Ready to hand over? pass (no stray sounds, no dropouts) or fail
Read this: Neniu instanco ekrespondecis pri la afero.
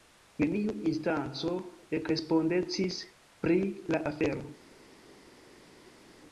pass